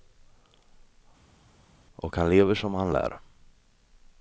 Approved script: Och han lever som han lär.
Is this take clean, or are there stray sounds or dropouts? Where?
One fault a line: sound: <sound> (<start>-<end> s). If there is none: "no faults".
no faults